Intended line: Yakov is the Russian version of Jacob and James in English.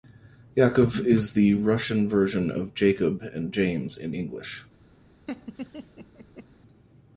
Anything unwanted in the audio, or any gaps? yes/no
yes